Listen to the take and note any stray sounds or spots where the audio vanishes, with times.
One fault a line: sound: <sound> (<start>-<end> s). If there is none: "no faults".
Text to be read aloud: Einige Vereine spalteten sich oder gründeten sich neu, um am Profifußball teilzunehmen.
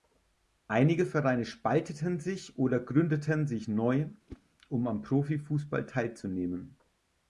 sound: whoosh (4.3-4.4 s)